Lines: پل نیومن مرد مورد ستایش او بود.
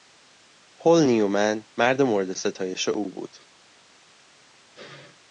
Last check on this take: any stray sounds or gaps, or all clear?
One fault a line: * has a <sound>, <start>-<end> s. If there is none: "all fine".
all fine